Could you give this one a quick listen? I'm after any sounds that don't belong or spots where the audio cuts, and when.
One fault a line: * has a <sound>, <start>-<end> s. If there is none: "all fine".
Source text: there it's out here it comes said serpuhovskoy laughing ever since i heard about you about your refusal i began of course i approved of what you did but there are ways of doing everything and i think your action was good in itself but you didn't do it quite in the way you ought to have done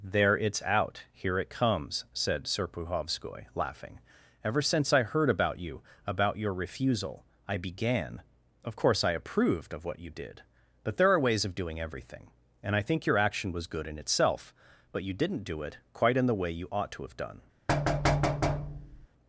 * has a thud, 17.7-19.1 s